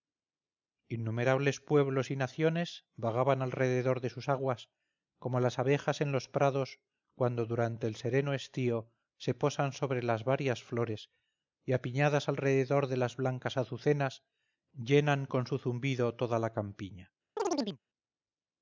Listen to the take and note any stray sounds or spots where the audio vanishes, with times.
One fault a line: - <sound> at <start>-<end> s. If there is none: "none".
- chirp at 17.4-17.8 s